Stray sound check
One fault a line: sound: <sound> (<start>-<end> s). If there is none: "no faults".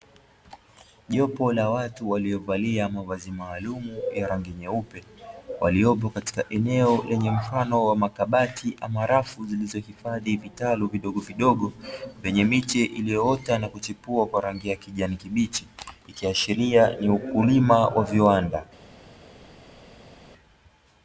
no faults